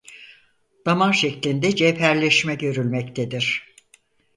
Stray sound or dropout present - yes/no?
no